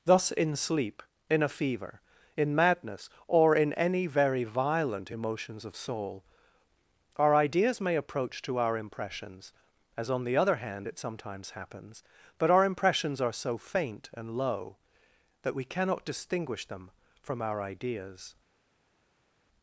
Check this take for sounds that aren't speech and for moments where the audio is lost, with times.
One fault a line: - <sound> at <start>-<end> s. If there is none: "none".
none